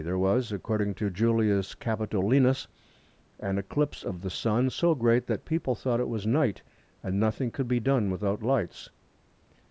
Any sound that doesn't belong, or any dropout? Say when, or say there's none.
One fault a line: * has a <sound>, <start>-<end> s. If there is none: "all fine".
all fine